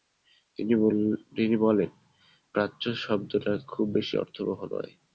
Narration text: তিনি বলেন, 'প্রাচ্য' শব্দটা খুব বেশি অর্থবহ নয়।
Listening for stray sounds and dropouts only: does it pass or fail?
pass